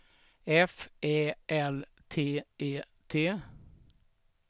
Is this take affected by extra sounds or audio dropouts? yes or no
no